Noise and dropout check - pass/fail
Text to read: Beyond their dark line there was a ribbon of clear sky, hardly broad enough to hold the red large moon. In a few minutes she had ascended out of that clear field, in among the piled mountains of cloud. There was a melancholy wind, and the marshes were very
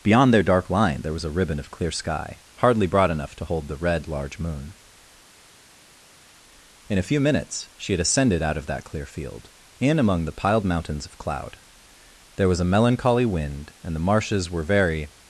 pass